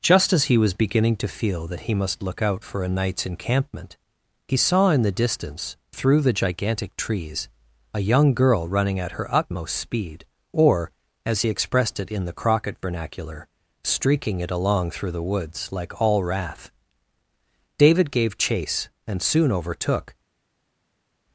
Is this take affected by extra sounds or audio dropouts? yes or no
no